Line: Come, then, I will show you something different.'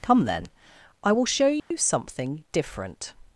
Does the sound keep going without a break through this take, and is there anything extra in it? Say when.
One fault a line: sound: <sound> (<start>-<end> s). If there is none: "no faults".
sound: dropout (1.6-1.7 s)